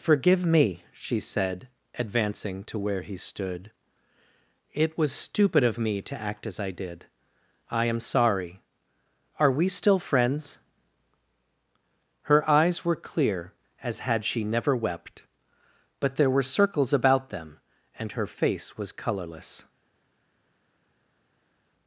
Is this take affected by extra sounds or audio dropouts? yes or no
no